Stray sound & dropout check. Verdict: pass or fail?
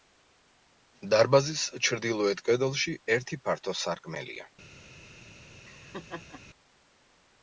fail